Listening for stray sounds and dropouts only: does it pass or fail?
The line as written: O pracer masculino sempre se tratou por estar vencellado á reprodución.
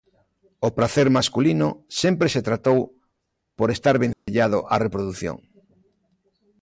fail